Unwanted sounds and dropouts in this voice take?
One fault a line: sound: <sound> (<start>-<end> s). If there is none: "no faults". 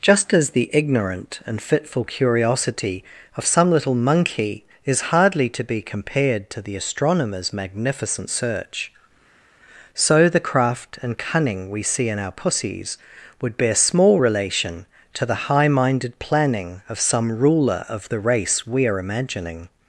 no faults